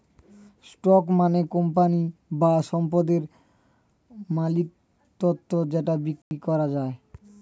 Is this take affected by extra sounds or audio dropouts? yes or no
yes